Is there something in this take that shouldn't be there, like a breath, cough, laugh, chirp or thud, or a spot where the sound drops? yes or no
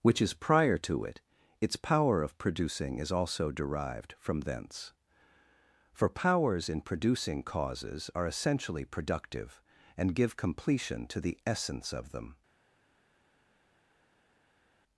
no